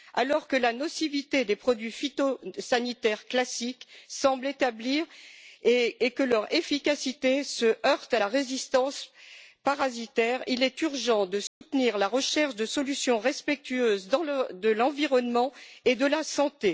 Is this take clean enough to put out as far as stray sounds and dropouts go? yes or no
no